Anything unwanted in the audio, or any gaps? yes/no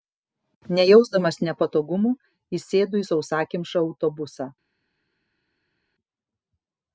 no